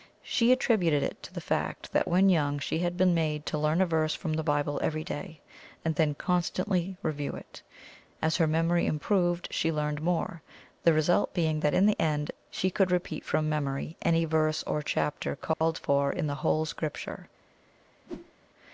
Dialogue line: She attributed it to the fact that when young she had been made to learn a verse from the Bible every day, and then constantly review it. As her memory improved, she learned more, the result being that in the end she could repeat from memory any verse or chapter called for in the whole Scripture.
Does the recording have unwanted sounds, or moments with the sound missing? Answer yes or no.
yes